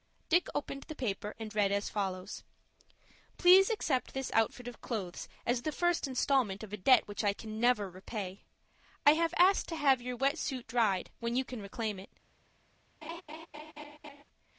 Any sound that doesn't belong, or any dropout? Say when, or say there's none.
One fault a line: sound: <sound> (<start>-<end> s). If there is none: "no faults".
sound: laugh (13.0-14.2 s)